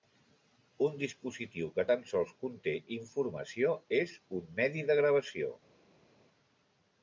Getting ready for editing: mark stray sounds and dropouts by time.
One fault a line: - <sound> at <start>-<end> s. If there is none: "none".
none